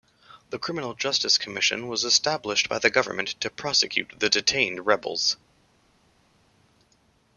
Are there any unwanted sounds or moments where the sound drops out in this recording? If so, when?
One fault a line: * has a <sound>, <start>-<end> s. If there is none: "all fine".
all fine